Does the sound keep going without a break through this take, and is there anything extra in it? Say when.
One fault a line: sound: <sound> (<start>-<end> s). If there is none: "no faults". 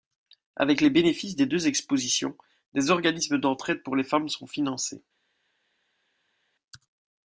no faults